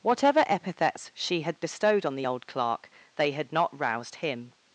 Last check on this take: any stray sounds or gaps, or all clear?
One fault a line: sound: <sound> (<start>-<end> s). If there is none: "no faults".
no faults